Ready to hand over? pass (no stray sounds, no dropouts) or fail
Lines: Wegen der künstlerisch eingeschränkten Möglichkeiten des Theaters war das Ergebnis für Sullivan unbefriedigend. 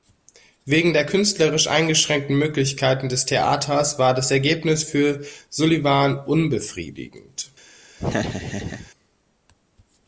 fail